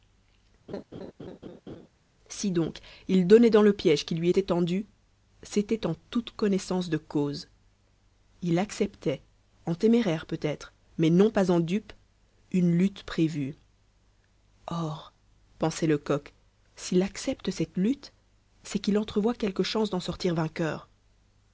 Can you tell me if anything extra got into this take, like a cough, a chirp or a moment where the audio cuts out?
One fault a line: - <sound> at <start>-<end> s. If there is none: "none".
- laugh at 0.7-1.9 s